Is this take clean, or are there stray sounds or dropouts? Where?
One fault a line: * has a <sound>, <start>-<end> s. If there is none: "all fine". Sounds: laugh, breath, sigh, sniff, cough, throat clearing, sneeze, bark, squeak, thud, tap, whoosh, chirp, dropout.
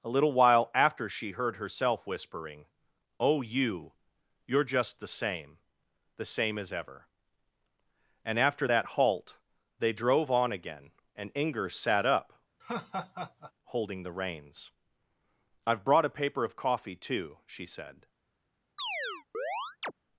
* has a laugh, 12.6-13.5 s
* has a chirp, 18.8-19.9 s